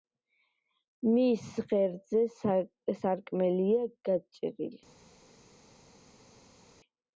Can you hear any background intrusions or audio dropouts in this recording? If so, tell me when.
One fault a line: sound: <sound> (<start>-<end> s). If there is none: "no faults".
no faults